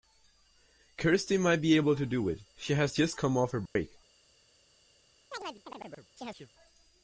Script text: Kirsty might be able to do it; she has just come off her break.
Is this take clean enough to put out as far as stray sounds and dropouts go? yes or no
no